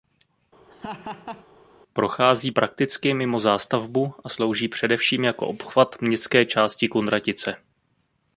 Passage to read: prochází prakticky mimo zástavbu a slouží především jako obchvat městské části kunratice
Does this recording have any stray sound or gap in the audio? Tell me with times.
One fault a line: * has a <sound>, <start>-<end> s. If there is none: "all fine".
* has a laugh, 0.7-1.5 s